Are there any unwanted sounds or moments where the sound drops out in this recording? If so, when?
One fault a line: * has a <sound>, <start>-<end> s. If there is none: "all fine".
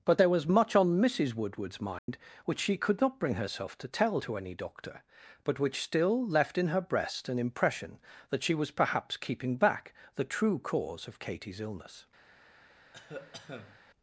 * has a dropout, 2.0-2.1 s
* has a cough, 12.9-13.8 s